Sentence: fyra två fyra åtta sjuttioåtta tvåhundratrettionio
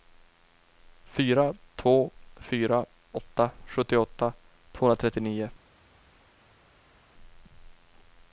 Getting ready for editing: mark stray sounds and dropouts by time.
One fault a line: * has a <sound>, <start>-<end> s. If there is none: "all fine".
all fine